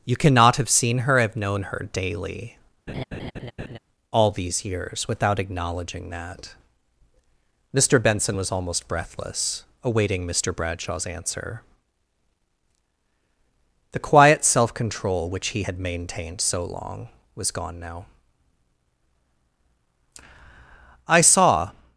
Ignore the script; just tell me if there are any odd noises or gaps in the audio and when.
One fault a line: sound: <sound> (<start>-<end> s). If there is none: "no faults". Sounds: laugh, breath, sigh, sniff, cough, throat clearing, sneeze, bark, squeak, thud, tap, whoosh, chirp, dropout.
sound: laugh (2.9-3.8 s)